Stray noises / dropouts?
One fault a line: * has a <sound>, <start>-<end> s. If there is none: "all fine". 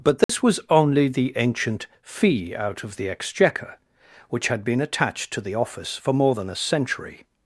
* has a dropout, 0.2-0.3 s